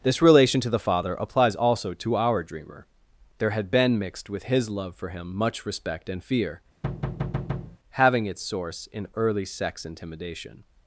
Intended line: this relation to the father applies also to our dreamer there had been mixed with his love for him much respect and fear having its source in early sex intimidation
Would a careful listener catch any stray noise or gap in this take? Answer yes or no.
yes